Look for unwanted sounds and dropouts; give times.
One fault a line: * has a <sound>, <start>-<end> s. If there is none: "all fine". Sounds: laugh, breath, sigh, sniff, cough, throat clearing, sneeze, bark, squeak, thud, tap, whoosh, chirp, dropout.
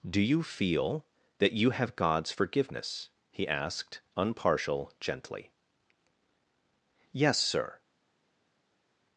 all fine